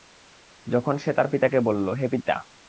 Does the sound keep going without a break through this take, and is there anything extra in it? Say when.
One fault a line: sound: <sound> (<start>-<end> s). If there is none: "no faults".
no faults